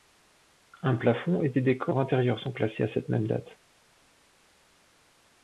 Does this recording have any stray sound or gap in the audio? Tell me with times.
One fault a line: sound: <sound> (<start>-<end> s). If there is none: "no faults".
no faults